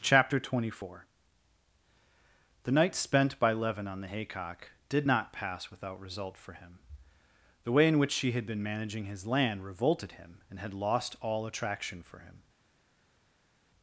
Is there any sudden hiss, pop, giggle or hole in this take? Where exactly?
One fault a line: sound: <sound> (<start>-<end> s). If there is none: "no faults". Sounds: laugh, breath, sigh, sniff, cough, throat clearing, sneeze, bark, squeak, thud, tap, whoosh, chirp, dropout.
no faults